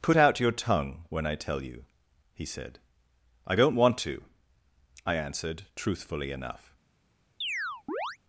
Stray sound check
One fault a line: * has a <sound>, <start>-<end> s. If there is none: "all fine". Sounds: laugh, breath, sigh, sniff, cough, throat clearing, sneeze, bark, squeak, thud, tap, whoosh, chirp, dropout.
* has a chirp, 7.4-8.2 s